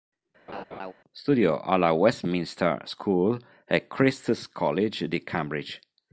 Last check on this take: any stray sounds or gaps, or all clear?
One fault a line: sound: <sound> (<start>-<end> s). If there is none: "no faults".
sound: laugh (0.5-0.9 s)